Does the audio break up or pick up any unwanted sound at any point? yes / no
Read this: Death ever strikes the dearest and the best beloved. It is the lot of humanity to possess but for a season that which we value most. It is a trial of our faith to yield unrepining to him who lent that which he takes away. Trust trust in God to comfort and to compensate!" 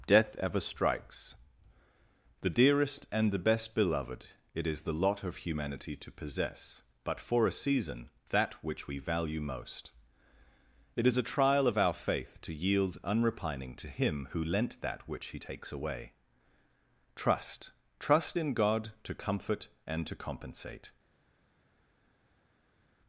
no